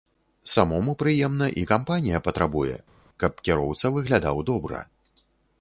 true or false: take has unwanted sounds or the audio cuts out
false